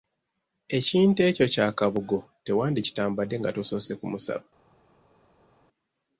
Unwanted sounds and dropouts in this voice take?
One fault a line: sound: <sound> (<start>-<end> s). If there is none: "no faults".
no faults